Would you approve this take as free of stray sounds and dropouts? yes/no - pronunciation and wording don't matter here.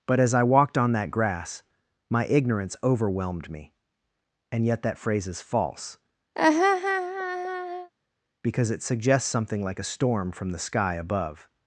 no